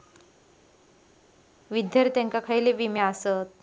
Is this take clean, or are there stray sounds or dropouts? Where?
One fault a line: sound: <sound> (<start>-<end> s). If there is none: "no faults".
no faults